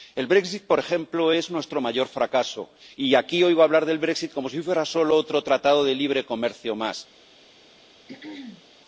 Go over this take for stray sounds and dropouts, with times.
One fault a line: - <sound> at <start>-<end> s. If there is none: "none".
- throat clearing at 8.1-8.6 s